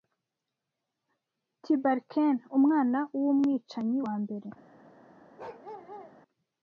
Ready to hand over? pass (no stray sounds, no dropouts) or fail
fail